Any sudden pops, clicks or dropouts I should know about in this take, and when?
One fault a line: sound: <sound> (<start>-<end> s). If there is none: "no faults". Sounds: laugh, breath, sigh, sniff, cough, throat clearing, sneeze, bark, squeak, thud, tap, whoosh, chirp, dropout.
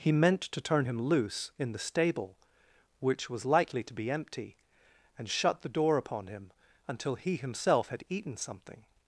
no faults